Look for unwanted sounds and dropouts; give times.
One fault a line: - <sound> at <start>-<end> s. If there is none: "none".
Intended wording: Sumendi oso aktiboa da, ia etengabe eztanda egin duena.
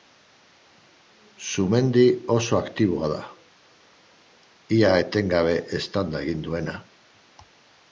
none